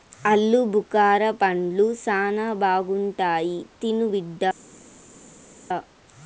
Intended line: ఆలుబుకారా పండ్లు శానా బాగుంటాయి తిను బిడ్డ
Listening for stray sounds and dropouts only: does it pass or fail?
pass